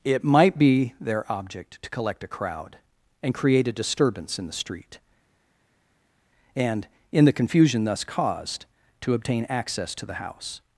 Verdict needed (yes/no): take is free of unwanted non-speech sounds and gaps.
yes